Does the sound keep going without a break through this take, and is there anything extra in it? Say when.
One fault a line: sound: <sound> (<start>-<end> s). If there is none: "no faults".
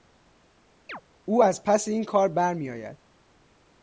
sound: chirp (0.9-1.0 s)